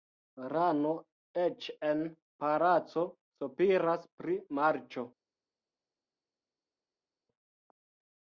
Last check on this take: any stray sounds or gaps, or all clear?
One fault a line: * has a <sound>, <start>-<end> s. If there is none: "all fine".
all fine